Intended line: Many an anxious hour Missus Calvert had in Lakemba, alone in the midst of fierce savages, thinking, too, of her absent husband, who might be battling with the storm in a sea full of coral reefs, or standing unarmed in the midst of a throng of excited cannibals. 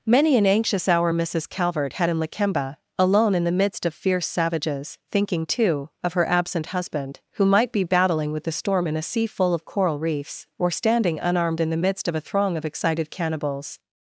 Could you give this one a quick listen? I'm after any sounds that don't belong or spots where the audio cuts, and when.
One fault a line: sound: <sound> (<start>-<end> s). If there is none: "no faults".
no faults